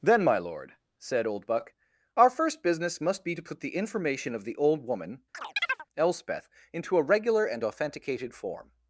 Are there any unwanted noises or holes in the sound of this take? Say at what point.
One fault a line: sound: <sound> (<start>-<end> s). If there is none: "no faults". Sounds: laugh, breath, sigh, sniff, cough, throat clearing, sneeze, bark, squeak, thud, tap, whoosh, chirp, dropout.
sound: chirp (5.3-5.9 s)